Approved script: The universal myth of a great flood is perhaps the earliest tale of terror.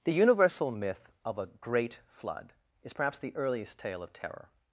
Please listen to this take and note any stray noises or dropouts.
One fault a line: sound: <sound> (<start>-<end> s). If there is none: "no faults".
no faults